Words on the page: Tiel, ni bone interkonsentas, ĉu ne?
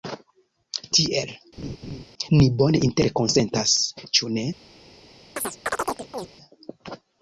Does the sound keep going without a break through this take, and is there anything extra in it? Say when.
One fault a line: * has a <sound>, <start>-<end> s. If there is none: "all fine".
* has a laugh, 1.6-2.1 s
* has a chirp, 5.4-6.3 s